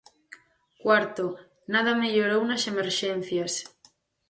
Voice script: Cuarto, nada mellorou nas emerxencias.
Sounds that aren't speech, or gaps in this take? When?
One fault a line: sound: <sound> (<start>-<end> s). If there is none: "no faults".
no faults